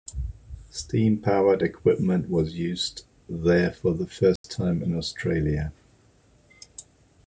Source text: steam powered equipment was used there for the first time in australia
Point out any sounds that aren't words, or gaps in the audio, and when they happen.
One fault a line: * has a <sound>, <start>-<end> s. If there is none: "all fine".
* has a dropout, 4.4-4.4 s